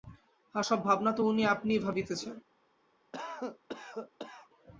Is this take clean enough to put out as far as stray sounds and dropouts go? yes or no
no